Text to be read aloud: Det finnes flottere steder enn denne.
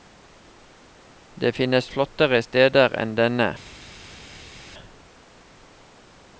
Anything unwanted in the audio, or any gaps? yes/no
no